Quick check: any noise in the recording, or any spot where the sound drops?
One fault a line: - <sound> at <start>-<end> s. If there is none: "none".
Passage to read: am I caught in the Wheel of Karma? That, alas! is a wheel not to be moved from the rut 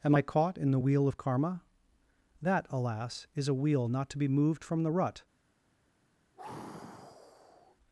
- sigh at 6.4-7.8 s